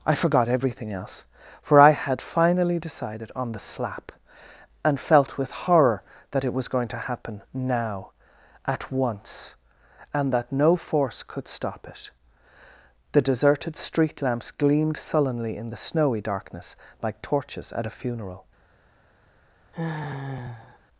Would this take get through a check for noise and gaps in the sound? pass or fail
fail